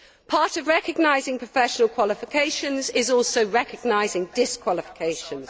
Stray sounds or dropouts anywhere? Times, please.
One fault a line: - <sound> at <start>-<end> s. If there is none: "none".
none